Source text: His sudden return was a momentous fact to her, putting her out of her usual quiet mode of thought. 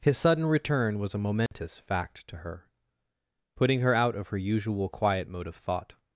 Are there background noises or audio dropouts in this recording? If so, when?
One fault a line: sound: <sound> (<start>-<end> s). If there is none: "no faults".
sound: dropout (1.5-1.5 s)